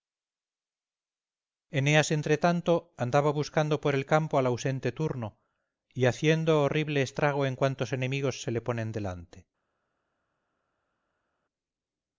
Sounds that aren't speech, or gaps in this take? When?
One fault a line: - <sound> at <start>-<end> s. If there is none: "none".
none